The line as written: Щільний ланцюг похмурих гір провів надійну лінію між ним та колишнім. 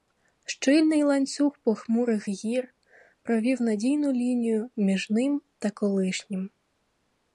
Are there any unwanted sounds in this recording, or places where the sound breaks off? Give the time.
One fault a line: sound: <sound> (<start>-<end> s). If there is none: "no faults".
no faults